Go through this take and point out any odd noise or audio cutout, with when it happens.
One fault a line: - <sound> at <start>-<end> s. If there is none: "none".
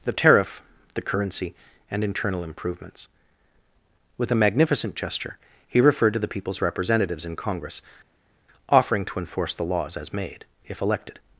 none